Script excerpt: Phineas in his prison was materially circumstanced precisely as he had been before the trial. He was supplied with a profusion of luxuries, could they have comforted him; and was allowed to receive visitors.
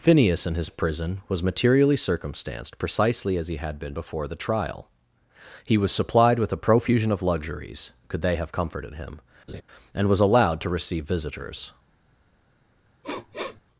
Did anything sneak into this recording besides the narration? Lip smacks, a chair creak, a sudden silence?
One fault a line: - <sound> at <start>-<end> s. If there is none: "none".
- laugh at 9.5-9.6 s
- sniff at 13.0-13.6 s